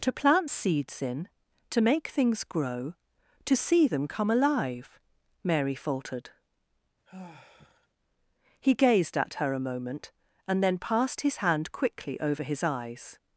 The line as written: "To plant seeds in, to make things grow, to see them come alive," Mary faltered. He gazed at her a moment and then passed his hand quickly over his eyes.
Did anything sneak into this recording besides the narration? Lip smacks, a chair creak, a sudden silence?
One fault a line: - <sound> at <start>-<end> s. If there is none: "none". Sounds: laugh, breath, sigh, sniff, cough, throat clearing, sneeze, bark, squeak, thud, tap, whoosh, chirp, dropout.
- sigh at 7.1-7.9 s